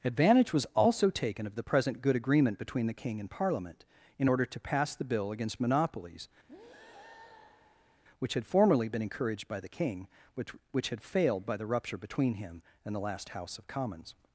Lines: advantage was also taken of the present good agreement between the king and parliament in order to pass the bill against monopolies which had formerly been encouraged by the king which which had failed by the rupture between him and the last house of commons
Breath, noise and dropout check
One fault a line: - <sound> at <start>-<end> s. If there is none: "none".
- breath at 6.5-8.0 s